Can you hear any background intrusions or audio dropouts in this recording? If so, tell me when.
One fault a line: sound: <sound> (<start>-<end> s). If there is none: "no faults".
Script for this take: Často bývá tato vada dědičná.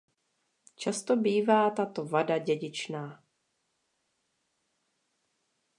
no faults